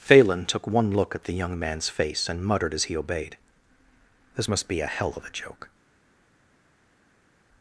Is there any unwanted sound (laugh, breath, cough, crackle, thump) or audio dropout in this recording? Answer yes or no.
no